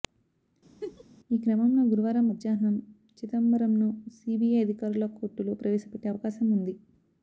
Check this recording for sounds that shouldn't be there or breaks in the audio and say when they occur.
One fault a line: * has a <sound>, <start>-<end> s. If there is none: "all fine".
* has a laugh, 0.8-1.0 s